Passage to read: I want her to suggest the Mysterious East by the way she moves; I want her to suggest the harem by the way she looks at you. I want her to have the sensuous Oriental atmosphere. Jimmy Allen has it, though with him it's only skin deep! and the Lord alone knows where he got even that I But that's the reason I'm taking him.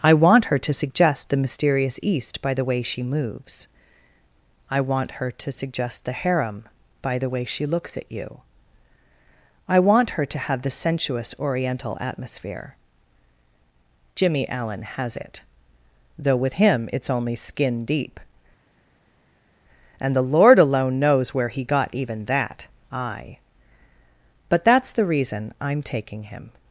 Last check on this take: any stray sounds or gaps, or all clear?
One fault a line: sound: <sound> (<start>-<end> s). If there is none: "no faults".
no faults